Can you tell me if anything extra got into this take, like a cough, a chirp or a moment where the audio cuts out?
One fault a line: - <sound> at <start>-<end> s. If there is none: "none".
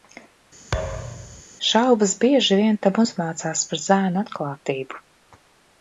- thud at 0.7-1.4 s